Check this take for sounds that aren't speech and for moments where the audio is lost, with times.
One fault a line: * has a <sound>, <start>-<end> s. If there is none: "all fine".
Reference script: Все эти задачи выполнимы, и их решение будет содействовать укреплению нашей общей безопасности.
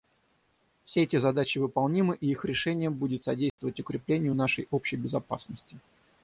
* has a dropout, 3.5-3.6 s